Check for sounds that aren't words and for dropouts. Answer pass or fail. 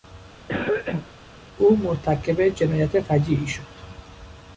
fail